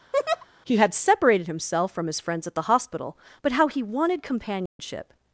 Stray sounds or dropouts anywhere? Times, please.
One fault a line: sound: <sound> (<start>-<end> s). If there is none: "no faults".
sound: laugh (0.1-0.5 s)
sound: dropout (4.7-4.8 s)